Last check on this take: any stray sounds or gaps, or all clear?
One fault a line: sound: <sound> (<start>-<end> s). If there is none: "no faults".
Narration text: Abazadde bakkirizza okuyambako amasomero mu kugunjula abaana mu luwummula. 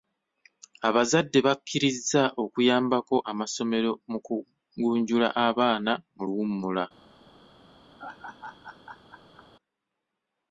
sound: laugh (8.0-9.5 s)